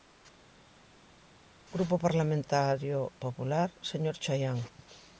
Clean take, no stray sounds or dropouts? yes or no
yes